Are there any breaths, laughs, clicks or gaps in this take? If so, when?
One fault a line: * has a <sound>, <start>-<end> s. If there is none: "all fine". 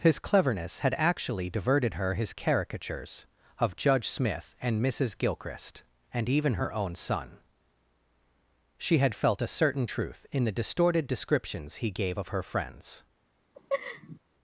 * has a laugh, 13.5-14.2 s